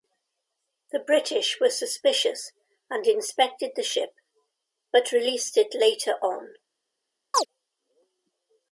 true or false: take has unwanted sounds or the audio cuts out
true